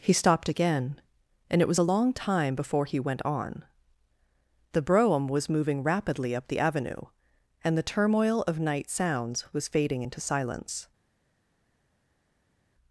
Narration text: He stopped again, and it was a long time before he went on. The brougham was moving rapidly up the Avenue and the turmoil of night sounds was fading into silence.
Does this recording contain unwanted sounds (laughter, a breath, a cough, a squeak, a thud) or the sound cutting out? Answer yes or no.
no